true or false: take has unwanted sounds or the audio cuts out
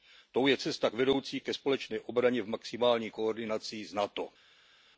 false